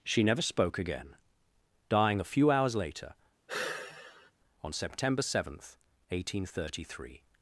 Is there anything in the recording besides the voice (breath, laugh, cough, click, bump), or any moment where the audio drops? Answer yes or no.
yes